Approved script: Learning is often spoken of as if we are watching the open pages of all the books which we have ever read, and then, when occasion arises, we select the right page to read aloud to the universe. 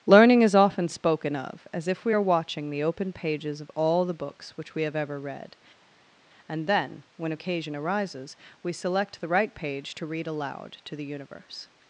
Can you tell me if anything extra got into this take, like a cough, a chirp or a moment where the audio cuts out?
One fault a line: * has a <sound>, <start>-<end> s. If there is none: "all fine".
all fine